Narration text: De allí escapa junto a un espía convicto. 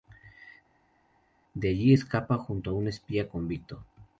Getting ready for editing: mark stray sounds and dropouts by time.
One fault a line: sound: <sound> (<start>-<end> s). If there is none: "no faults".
no faults